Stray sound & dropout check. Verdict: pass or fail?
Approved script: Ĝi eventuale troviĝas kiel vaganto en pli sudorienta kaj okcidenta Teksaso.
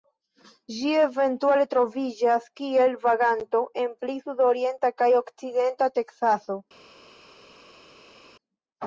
pass